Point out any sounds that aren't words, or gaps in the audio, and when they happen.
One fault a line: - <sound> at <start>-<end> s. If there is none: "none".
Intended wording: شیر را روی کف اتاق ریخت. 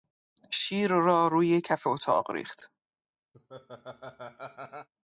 - laugh at 3.3-4.9 s